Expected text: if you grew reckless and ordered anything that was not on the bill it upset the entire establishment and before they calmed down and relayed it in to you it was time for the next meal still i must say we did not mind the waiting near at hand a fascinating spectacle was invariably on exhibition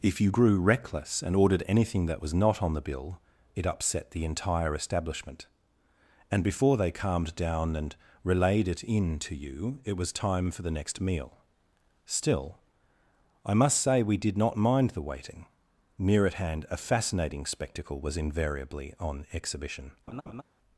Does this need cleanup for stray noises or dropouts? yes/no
yes